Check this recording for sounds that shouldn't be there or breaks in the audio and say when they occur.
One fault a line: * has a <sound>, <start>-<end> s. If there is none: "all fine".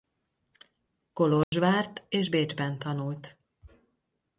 * has a dropout, 1.4-1.5 s